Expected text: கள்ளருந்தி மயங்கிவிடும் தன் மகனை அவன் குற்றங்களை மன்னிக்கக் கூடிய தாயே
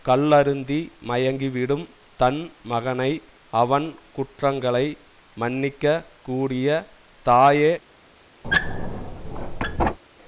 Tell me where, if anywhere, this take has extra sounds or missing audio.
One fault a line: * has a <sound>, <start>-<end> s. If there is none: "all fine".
* has a squeak, 8.4-10.0 s